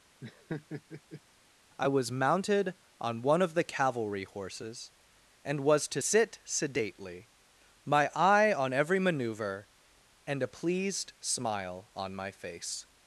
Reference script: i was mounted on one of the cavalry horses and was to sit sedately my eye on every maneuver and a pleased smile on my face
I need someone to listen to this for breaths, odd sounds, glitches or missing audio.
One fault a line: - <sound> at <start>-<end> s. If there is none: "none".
- laugh at 0.2-1.2 s